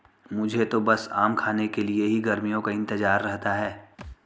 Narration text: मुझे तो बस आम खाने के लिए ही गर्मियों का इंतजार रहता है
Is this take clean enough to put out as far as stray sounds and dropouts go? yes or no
no